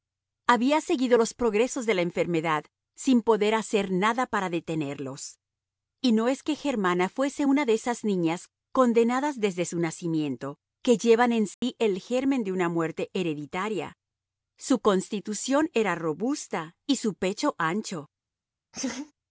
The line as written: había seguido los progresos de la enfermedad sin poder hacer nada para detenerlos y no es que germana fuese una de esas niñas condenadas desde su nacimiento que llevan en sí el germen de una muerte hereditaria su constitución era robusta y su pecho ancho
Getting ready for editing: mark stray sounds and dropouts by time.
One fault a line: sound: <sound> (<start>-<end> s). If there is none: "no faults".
sound: dropout (11.5-11.6 s)
sound: laugh (18.7-19.1 s)